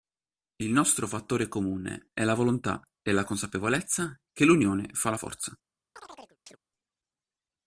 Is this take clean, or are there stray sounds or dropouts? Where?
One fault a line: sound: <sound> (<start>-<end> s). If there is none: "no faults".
sound: chirp (6.0-6.6 s)